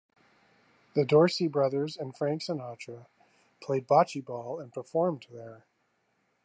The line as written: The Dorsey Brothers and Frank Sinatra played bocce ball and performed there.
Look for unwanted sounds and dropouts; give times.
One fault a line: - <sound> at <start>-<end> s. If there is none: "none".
none